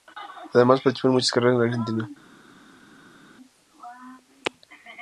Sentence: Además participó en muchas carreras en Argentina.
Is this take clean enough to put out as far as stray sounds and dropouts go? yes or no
yes